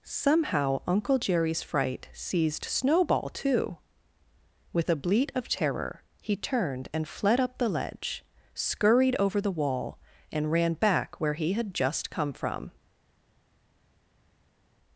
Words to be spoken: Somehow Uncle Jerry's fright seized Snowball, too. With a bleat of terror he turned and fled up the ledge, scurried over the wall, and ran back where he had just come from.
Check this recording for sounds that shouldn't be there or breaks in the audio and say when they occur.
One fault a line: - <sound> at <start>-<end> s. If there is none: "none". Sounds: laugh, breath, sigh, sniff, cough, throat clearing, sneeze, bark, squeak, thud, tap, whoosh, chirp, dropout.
none